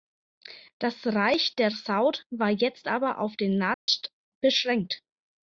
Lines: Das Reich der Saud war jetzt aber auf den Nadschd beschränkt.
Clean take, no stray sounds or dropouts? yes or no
no